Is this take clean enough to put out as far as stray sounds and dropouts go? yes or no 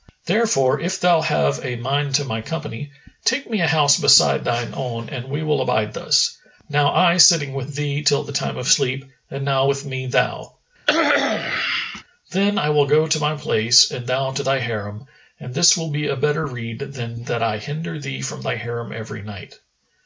no